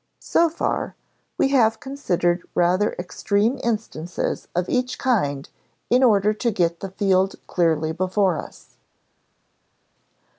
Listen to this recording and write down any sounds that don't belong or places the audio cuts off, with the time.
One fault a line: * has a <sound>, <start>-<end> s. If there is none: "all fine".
all fine